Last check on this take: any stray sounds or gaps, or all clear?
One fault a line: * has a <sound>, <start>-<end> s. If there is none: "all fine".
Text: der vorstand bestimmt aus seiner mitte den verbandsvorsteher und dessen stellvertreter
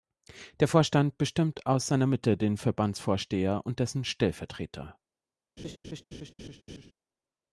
* has a laugh, 5.6-6.9 s